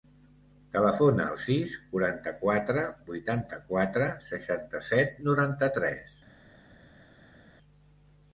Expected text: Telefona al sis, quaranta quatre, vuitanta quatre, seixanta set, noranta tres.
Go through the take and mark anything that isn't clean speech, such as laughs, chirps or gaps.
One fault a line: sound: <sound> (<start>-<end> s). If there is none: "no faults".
no faults